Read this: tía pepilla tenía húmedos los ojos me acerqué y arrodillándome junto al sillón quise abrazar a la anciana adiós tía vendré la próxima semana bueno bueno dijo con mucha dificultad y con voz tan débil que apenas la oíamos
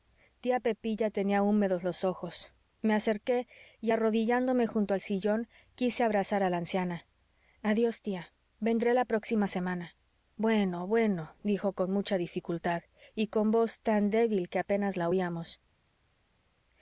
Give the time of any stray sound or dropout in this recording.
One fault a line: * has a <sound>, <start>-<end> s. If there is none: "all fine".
all fine